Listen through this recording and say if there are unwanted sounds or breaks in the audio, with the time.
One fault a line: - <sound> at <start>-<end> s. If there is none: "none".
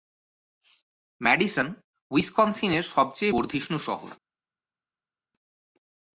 none